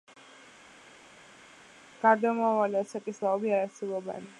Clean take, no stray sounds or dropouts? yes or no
yes